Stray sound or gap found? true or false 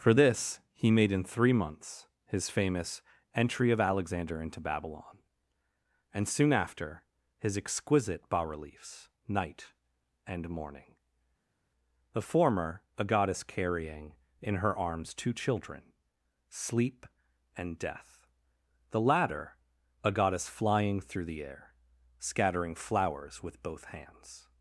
false